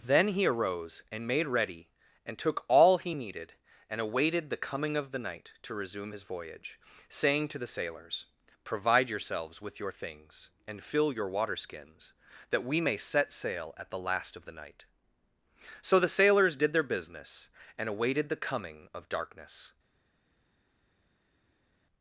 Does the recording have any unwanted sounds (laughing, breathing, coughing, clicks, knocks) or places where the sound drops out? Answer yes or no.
no